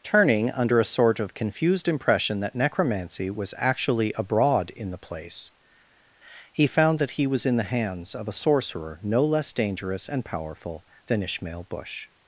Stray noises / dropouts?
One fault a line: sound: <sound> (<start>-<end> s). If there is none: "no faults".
no faults